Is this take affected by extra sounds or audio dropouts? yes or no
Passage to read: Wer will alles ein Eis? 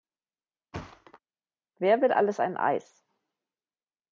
yes